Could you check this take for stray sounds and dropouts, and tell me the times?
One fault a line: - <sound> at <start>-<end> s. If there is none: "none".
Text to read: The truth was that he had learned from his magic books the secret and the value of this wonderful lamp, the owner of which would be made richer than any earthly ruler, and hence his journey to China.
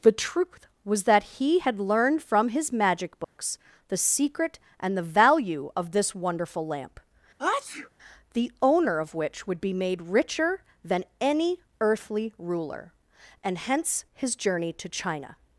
- dropout at 3.2-3.4 s
- sneeze at 7.4-7.9 s